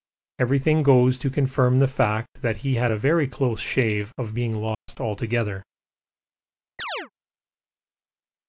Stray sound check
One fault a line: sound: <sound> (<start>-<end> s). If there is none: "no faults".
sound: dropout (4.7-4.9 s)
sound: chirp (6.8-7.1 s)